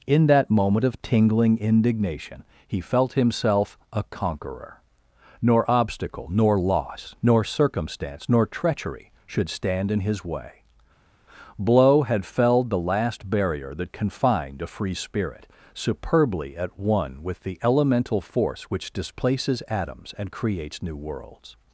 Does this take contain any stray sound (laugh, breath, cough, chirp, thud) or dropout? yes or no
no